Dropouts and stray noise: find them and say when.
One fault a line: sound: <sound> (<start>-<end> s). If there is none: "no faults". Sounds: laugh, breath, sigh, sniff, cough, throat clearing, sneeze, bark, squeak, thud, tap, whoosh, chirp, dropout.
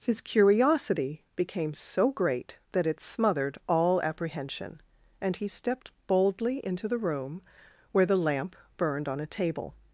no faults